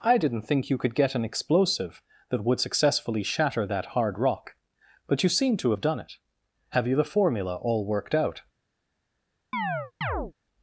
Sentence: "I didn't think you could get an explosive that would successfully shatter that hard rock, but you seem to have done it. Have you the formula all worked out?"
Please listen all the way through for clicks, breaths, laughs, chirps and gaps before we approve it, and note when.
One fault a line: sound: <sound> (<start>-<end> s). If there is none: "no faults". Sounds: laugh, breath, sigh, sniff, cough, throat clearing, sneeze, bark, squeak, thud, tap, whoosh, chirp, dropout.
sound: chirp (9.5-10.3 s)